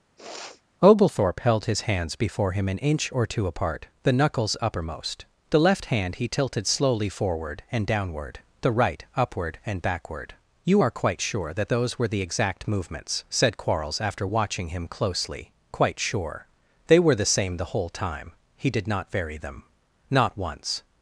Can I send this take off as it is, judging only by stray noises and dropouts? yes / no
no